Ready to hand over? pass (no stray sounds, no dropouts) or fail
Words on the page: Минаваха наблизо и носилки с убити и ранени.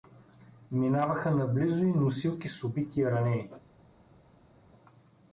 pass